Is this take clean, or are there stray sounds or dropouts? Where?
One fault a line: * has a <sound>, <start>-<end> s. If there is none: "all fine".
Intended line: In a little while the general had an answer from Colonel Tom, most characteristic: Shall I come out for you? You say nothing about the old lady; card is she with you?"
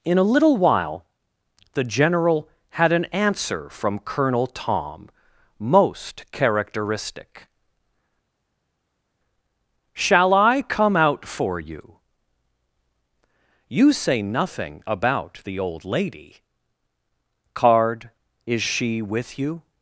all fine